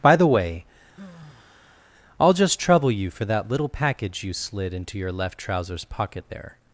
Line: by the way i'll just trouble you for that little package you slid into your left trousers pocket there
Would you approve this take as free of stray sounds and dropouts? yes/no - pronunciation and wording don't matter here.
no